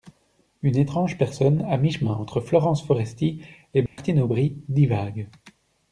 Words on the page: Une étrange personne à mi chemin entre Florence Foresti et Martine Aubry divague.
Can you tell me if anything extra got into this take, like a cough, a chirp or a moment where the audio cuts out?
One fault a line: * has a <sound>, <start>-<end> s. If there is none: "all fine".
* has a dropout, 3.9-4.0 s